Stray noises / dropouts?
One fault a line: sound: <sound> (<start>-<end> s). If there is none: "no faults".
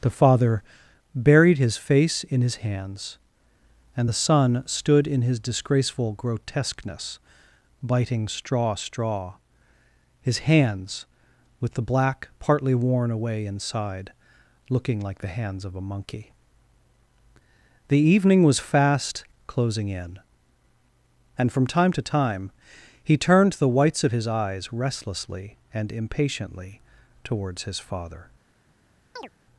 sound: chirp (29.2-29.3 s)